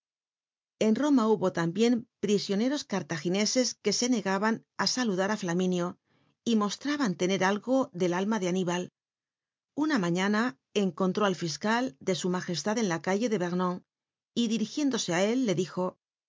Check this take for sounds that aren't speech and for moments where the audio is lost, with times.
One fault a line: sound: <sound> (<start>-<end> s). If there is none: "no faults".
no faults